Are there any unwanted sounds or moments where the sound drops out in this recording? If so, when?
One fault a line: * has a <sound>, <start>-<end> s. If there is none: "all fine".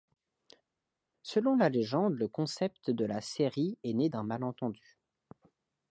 all fine